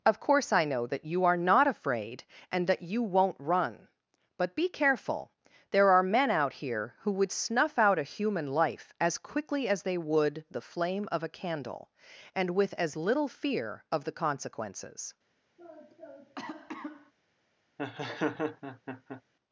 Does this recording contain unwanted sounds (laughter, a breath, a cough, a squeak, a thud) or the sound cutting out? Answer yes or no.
yes